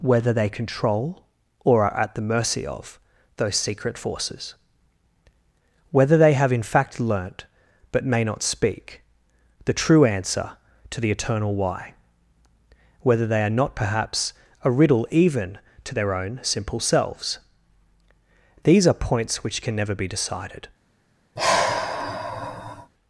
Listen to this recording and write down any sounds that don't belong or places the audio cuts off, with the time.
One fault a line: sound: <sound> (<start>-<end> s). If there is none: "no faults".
sound: sigh (21.4-22.9 s)